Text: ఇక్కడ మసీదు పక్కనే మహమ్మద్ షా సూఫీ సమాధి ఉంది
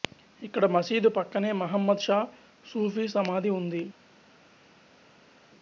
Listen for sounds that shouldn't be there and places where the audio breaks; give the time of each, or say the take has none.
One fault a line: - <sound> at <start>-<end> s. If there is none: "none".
none